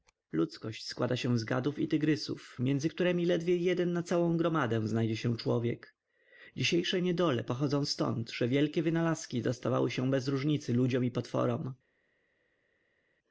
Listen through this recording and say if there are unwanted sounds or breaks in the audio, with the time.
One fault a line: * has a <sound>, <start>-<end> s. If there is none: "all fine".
all fine